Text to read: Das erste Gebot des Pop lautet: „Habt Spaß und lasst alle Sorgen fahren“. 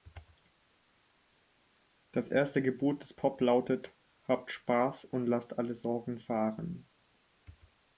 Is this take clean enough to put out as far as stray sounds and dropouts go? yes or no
yes